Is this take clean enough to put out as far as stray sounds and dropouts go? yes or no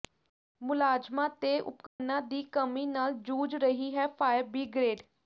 no